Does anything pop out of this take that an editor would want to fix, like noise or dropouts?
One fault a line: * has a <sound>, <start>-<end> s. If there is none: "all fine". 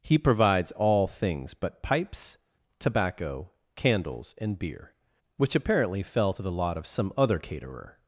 all fine